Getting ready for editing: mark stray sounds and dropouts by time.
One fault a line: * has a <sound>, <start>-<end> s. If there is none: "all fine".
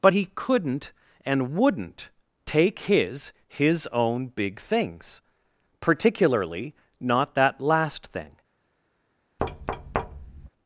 * has a thud, 9.4-10.5 s